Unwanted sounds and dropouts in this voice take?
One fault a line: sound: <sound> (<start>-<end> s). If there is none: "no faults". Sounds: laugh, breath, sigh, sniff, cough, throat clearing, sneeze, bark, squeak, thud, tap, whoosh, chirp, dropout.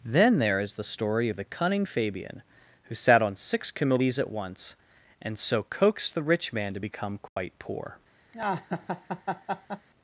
sound: dropout (7.3-7.4 s)
sound: laugh (8.3-9.9 s)